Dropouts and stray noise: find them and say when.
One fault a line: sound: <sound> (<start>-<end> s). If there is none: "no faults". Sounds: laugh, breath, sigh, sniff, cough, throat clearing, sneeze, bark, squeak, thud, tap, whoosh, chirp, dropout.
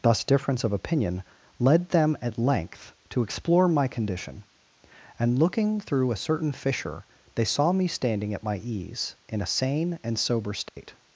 sound: dropout (10.7-10.8 s)